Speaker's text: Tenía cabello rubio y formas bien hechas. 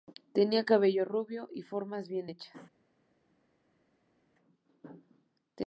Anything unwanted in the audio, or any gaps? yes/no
no